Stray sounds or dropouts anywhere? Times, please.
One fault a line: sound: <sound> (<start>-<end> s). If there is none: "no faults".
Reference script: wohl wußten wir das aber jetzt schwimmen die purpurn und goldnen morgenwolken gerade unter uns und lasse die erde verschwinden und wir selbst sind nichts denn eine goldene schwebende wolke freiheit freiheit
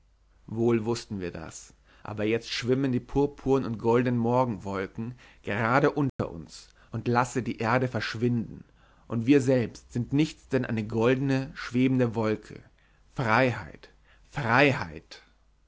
sound: dropout (6.1-6.2 s)